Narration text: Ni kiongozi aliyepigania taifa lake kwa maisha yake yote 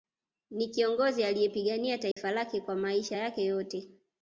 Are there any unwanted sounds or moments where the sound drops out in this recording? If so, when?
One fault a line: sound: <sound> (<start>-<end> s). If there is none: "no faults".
sound: dropout (2.1-2.2 s)